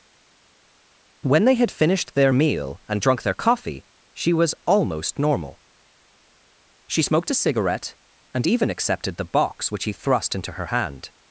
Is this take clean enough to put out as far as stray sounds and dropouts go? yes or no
yes